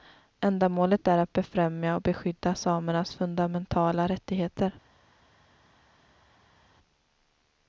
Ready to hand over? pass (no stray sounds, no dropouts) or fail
pass